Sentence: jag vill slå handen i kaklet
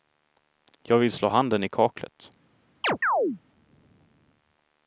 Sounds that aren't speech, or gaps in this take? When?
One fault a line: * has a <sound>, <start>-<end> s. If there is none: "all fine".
* has a chirp, 2.8-3.4 s